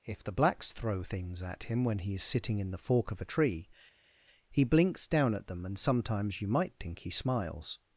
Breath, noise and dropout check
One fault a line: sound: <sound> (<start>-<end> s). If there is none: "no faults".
no faults